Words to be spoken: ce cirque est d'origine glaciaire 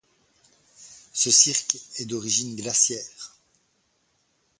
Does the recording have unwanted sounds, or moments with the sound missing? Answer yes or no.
no